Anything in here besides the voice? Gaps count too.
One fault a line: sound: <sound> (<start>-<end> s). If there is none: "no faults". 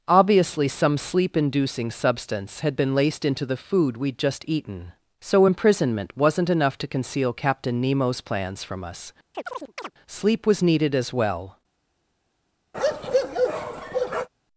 sound: chirp (9.3-9.9 s)
sound: bark (12.7-14.3 s)